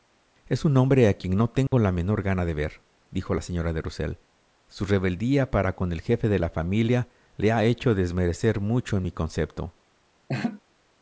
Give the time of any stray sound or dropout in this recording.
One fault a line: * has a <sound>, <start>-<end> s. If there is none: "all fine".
* has a dropout, 1.7-1.7 s
* has a laugh, 10.3-10.6 s